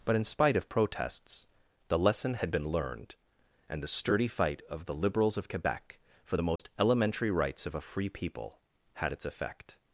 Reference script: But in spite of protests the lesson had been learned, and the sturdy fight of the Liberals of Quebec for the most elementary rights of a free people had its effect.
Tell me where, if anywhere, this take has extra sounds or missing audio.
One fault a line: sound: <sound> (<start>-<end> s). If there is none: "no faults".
sound: dropout (6.6-6.6 s)